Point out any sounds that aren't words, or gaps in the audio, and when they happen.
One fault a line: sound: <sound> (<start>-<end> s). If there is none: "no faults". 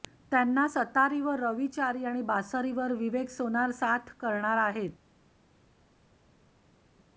no faults